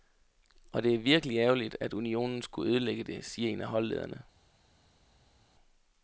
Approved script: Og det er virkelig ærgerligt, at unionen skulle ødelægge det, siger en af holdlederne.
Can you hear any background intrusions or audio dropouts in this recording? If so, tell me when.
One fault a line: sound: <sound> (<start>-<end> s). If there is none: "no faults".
no faults